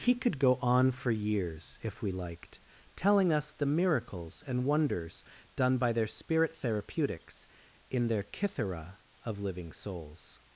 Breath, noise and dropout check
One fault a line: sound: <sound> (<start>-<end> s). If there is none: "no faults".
no faults